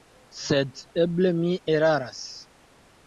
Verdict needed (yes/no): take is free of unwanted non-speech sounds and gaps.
yes